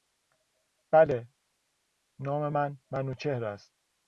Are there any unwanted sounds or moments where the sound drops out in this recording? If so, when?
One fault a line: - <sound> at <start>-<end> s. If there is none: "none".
none